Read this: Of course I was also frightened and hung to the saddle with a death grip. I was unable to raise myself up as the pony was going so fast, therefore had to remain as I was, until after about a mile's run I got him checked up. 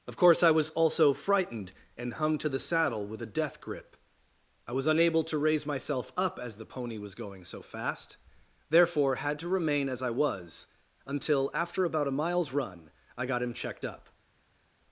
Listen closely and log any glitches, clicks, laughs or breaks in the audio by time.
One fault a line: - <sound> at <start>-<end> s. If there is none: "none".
none